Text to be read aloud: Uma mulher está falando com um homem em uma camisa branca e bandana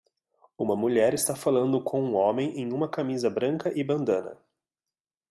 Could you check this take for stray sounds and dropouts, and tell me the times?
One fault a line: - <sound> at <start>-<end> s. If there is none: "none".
none